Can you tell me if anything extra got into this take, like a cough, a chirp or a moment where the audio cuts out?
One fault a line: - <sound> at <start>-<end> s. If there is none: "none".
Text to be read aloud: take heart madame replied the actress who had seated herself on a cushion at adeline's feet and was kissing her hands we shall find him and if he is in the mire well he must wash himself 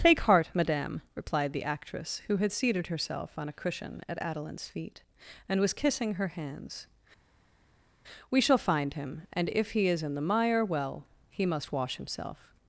none